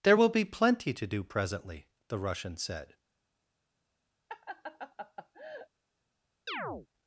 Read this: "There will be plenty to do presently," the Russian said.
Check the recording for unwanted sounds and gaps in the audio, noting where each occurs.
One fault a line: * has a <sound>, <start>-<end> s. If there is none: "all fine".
* has a laugh, 4.3-5.7 s
* has a chirp, 6.5-6.9 s